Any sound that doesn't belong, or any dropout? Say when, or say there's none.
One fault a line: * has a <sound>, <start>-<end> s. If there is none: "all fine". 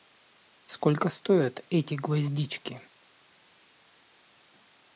all fine